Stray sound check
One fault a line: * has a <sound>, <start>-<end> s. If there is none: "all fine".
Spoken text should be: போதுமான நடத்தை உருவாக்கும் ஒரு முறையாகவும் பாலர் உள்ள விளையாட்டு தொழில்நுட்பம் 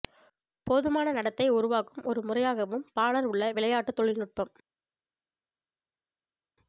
all fine